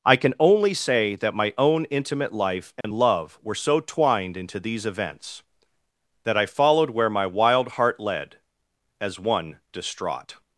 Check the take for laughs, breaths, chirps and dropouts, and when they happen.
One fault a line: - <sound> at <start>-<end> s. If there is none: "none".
- dropout at 2.8-2.8 s